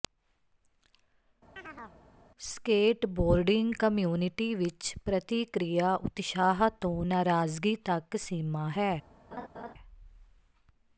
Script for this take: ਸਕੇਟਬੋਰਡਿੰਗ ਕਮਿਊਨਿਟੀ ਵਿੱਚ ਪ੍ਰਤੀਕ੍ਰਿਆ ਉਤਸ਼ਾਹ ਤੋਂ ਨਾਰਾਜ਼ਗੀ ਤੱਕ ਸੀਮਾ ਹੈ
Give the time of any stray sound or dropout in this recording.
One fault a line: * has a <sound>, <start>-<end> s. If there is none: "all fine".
* has a chirp, 1.6-2.0 s
* has a laugh, 9.3-9.7 s